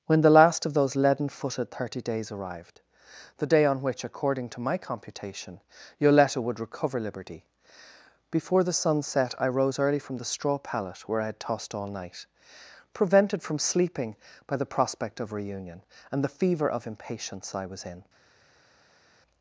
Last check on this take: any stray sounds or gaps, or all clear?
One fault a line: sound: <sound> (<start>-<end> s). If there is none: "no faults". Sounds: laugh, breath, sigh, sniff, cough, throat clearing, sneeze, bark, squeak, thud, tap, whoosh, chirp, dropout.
no faults